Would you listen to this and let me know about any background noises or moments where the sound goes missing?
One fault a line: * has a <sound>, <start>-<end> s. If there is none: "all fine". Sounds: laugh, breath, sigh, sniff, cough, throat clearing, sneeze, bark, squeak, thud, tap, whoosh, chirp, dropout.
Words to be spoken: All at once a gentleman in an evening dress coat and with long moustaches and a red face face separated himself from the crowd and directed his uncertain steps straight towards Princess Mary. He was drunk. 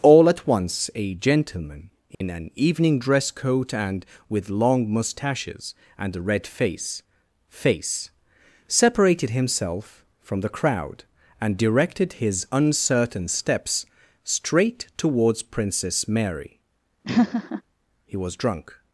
* has a dropout, 2.1-2.2 s
* has a laugh, 17.0-17.6 s